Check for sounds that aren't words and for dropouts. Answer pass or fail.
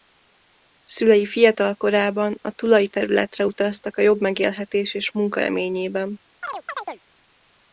fail